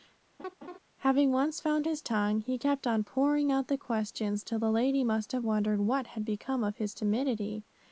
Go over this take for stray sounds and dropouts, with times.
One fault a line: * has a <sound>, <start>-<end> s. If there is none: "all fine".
* has a laugh, 0.4-0.8 s